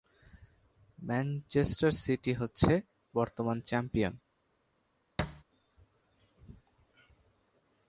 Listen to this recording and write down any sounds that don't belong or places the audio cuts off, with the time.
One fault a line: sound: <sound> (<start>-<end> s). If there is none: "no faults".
sound: thud (5.2-5.4 s)